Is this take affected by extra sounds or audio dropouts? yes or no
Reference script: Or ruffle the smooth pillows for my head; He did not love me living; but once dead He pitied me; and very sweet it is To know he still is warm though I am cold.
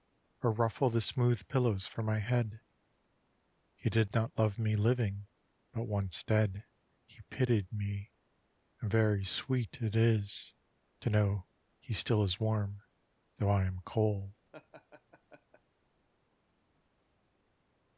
yes